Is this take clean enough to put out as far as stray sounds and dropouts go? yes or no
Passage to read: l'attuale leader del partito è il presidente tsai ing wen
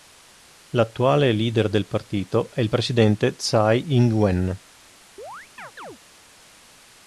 no